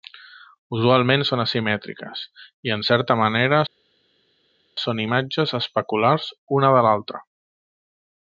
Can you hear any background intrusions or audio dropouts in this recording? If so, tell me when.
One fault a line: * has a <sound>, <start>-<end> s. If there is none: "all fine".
all fine